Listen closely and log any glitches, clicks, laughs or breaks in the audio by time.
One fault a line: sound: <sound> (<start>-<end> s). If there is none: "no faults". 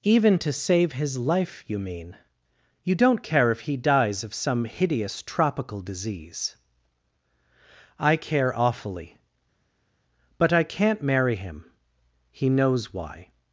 no faults